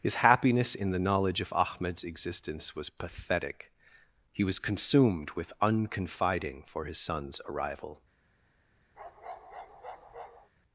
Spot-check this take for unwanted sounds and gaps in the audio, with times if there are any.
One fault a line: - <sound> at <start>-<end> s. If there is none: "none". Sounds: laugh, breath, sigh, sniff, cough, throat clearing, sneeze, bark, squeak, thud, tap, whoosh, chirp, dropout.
- bark at 8.9-10.5 s